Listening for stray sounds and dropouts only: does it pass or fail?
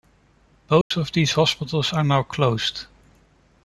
fail